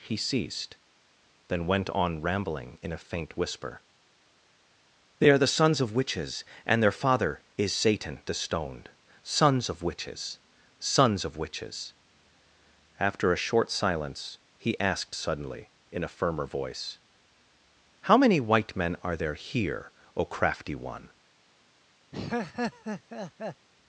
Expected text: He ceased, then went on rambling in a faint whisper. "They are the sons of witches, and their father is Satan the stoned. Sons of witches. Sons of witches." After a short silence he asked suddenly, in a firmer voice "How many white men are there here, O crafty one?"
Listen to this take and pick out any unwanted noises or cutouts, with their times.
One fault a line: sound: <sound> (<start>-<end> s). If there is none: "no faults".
sound: laugh (22.1-23.7 s)